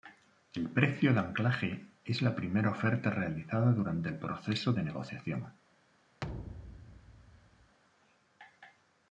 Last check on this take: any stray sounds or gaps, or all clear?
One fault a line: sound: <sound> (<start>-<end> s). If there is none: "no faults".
sound: thud (6.2-7.8 s)